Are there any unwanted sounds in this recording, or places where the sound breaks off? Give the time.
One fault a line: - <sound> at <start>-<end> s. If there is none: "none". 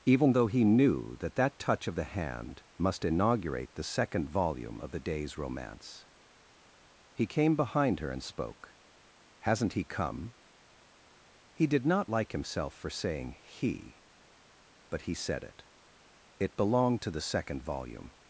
none